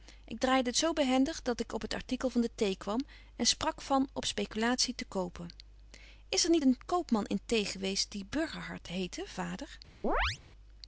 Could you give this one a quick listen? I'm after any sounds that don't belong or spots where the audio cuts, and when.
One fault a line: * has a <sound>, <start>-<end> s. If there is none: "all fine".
* has a chirp, 10.0-10.4 s